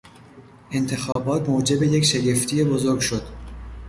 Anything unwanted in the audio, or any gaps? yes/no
yes